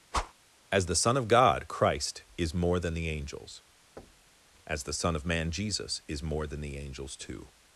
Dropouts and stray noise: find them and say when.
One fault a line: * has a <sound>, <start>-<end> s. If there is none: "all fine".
* has a whoosh, 0.1-0.3 s
* has a thud, 4.0-4.4 s